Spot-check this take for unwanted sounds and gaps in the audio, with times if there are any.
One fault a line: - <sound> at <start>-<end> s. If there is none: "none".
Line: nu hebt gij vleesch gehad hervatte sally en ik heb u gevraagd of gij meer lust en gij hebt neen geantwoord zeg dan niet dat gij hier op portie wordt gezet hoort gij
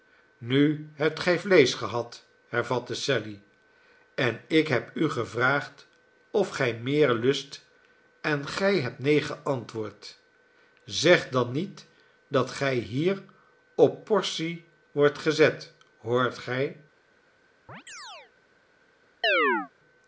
- chirp at 17.7-18.3 s
- chirp at 19.2-19.7 s